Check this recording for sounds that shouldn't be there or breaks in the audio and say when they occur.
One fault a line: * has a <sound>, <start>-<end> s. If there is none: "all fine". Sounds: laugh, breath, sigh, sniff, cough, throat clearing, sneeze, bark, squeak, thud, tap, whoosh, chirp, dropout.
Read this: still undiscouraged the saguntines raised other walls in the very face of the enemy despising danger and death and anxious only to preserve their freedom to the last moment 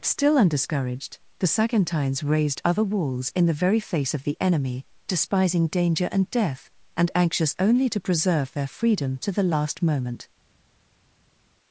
all fine